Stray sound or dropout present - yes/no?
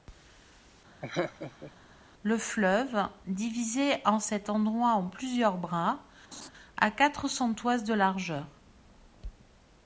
yes